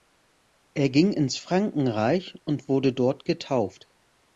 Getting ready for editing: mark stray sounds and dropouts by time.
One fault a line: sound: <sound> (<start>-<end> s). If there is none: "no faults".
no faults